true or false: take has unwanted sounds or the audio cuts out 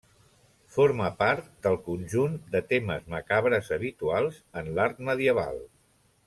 false